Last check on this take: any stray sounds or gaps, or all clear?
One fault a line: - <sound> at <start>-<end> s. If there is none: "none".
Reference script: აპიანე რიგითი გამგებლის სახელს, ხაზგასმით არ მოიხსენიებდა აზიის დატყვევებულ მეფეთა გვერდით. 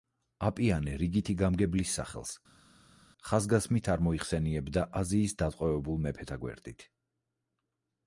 none